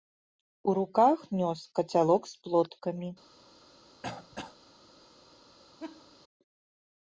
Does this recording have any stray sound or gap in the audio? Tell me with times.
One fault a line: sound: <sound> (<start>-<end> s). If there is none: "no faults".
sound: throat clearing (4.0-4.6 s)
sound: laugh (5.8-6.1 s)